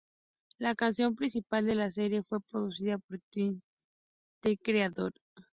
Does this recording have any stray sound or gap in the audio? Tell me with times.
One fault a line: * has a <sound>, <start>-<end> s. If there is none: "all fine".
all fine